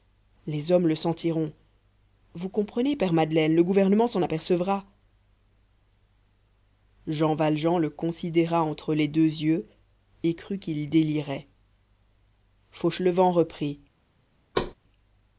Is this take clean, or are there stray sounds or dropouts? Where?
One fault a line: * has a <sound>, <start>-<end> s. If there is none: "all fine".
* has a thud, 14.5-14.7 s